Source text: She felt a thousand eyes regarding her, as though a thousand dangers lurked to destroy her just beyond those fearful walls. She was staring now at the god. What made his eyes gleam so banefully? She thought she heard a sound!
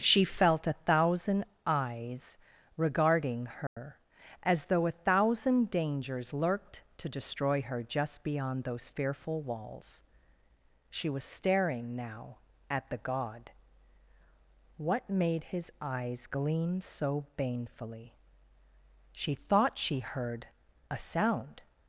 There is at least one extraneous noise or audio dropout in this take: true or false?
true